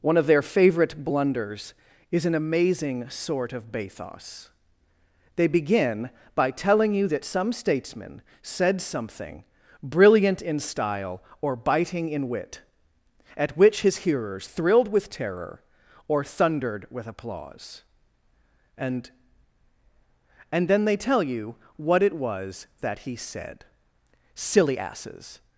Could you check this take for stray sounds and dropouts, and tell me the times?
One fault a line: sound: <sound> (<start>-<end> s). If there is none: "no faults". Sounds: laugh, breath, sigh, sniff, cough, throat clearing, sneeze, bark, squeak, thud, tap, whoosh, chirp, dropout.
no faults